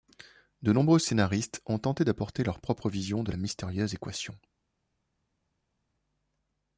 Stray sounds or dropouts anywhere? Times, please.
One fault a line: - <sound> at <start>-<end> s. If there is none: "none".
none